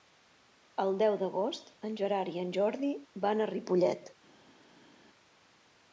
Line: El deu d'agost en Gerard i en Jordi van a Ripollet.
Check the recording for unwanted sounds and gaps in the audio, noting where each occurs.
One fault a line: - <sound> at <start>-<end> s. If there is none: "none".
none